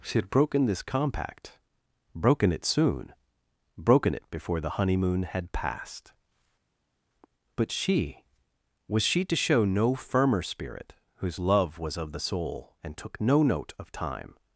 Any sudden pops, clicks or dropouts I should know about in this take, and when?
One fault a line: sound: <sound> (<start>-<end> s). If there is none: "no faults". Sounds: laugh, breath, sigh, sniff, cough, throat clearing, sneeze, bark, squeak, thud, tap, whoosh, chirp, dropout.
no faults